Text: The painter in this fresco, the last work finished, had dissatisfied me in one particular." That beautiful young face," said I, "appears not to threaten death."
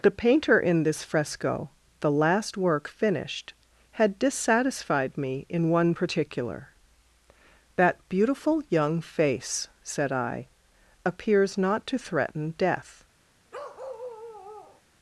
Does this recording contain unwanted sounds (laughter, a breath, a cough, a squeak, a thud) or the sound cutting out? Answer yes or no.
yes